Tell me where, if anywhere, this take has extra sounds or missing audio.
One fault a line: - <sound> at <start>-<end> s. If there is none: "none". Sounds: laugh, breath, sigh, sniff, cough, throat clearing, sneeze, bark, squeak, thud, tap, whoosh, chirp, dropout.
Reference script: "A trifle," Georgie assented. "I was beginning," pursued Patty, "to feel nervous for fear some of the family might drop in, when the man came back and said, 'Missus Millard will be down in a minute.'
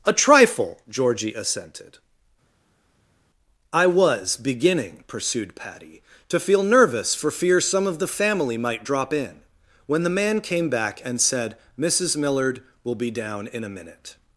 none